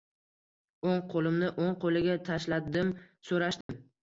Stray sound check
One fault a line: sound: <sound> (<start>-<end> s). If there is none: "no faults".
sound: dropout (3.6-3.7 s)